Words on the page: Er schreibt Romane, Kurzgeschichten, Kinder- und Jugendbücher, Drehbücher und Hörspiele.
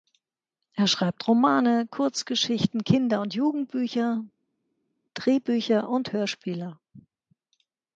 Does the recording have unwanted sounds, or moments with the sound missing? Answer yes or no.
no